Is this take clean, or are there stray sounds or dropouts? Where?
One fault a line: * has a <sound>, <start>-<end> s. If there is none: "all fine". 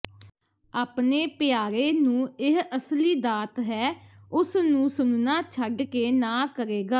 all fine